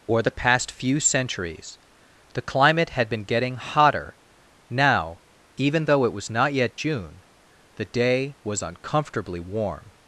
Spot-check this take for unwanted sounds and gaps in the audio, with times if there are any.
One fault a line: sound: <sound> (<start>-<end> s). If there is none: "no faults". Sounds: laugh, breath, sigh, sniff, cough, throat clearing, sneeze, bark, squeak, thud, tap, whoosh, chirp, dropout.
no faults